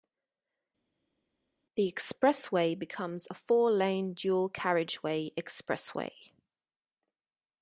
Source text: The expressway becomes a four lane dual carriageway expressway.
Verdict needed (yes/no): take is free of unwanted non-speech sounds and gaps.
yes